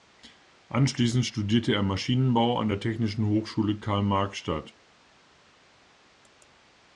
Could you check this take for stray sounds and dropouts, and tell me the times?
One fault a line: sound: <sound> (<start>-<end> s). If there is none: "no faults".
no faults